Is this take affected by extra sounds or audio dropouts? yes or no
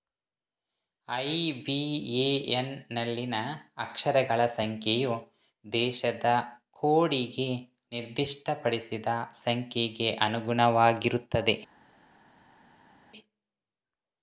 no